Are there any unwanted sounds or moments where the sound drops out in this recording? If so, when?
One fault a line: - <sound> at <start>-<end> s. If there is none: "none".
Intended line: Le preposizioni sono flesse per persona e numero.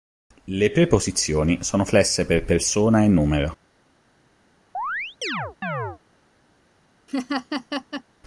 - chirp at 4.7-6.0 s
- laugh at 7.1-8.0 s